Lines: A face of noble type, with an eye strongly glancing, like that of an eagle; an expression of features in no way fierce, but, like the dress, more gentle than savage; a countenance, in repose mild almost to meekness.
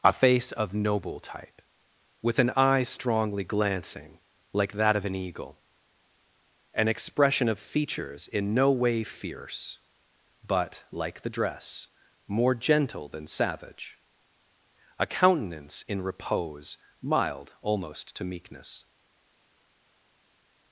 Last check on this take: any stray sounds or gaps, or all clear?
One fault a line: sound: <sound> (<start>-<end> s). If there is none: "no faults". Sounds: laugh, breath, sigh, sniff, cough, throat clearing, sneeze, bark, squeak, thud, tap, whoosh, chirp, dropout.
no faults